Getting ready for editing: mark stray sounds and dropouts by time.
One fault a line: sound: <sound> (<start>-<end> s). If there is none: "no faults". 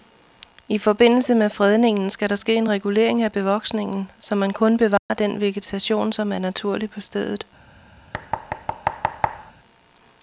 sound: dropout (5.0-5.1 s)
sound: thud (8.1-9.5 s)